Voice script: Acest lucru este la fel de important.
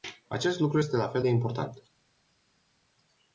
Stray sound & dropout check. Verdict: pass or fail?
pass